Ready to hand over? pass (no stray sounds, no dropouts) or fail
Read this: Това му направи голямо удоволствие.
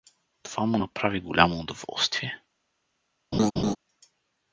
fail